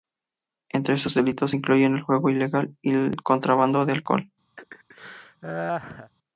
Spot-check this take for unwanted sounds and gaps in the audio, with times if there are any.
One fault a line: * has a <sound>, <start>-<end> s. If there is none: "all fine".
* has a laugh, 4.6-6.1 s